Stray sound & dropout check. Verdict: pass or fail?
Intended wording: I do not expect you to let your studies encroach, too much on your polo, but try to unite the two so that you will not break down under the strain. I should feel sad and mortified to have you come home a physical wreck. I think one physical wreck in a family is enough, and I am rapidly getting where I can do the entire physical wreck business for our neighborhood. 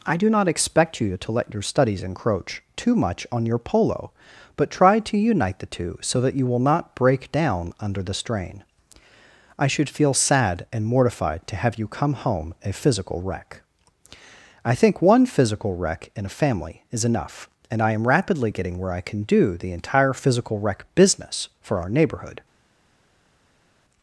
pass